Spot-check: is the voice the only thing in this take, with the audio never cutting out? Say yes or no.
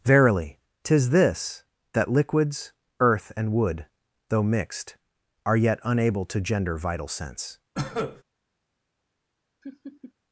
no